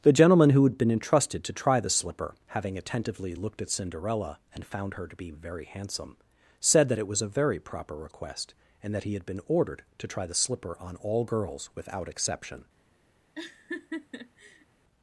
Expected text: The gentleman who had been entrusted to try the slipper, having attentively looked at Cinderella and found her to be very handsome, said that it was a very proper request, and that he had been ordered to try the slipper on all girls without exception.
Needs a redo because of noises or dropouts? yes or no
yes